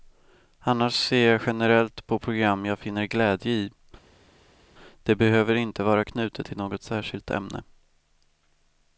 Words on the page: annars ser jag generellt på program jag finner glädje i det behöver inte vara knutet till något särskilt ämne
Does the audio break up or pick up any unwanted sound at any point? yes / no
no